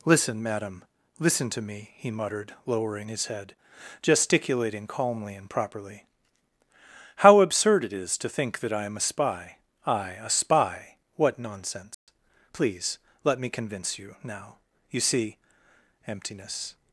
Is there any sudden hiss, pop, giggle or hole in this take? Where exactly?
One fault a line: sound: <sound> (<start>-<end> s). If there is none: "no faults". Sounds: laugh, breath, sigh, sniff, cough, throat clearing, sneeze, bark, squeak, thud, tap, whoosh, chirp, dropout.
sound: dropout (11.9-12.1 s)